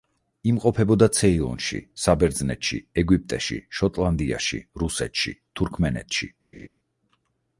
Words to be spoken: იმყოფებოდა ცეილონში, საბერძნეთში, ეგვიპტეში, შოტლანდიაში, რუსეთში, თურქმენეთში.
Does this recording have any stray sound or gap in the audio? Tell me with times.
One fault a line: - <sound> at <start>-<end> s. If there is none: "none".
- laugh at 6.5-6.7 s